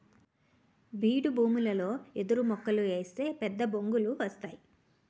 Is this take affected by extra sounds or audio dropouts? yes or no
no